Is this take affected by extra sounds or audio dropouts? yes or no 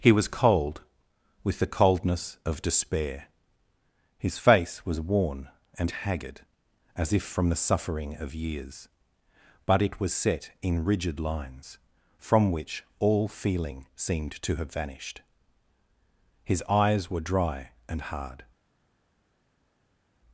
no